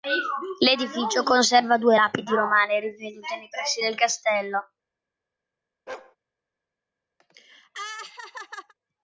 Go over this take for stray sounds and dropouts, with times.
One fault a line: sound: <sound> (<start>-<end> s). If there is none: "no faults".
sound: bark (5.9-6.2 s)
sound: laugh (7.2-8.7 s)